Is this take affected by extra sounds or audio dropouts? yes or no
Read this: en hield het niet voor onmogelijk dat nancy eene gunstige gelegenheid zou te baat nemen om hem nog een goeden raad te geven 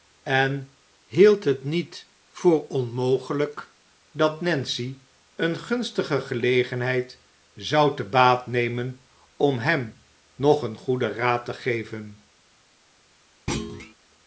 yes